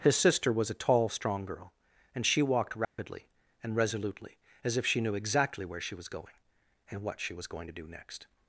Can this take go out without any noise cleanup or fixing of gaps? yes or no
no